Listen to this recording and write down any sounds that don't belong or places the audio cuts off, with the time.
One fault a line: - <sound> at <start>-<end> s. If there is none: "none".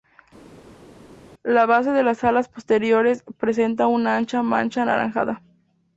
none